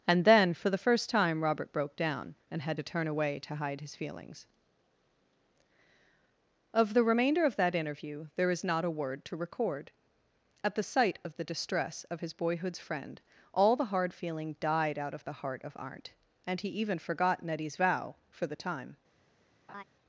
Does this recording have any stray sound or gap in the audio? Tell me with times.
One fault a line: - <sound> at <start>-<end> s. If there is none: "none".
- laugh at 19.7-19.8 s